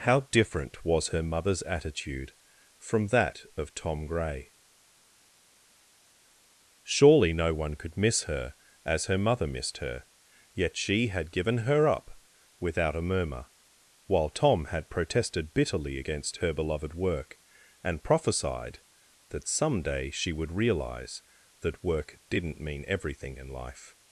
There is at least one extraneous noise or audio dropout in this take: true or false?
false